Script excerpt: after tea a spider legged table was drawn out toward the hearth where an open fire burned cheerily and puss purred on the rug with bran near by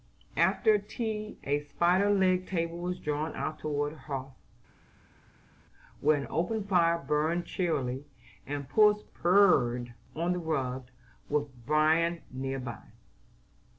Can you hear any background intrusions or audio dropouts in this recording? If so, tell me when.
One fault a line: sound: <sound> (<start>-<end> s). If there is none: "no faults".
no faults